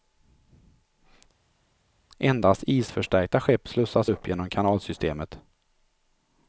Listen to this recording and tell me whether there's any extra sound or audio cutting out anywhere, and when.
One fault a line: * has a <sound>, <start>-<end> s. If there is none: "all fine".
all fine